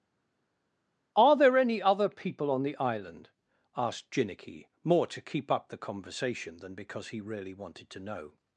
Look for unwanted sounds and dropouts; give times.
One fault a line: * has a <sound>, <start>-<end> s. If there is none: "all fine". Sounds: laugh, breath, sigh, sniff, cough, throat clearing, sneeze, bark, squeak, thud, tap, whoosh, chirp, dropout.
all fine